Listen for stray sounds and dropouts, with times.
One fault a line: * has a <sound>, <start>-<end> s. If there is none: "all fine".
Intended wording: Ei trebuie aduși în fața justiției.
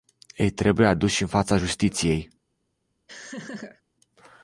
* has a laugh, 3.1-3.8 s